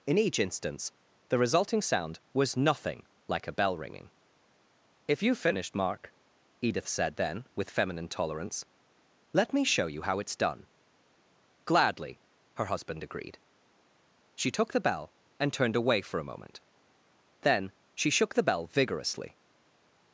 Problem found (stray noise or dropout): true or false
false